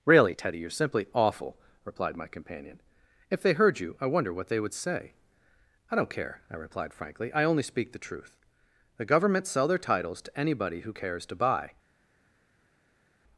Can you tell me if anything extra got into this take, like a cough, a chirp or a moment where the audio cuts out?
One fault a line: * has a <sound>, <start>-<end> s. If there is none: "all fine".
all fine